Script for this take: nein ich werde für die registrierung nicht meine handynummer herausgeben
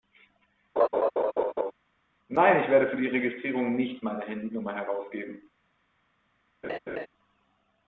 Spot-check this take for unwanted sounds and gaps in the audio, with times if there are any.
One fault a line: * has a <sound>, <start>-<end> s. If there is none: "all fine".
* has a laugh, 0.8-1.7 s
* has a laugh, 6.6-7.1 s